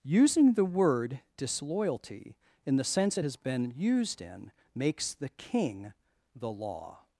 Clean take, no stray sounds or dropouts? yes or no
yes